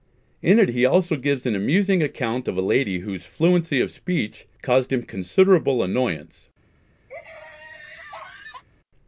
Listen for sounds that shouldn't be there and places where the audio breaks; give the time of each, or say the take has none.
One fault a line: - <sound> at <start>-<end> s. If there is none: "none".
- laugh at 7.1-8.6 s